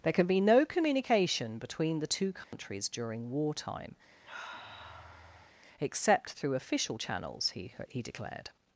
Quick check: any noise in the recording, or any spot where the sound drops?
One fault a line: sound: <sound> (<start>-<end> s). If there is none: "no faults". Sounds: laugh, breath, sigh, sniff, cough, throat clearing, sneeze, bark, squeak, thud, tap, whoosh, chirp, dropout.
sound: dropout (2.4-2.5 s)
sound: sniff (4.2-5.5 s)